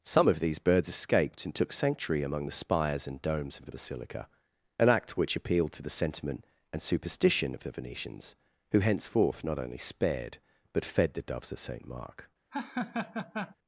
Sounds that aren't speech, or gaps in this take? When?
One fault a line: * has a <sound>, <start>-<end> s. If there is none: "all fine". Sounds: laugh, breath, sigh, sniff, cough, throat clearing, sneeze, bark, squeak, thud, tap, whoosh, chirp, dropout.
* has a laugh, 12.5-13.6 s